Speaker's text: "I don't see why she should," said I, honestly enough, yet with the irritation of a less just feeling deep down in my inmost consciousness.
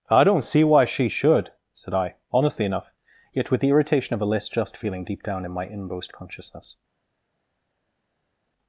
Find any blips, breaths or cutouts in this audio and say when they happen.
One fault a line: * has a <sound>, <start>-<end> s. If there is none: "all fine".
all fine